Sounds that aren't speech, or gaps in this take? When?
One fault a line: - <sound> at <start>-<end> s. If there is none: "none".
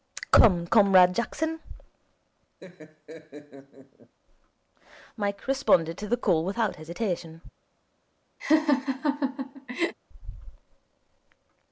- laugh at 2.6-4.1 s
- laugh at 8.4-9.9 s